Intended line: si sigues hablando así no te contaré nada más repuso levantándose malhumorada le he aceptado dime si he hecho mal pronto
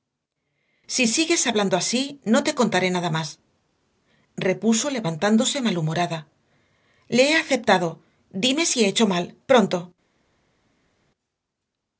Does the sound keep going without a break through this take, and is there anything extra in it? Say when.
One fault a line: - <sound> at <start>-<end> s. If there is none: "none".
none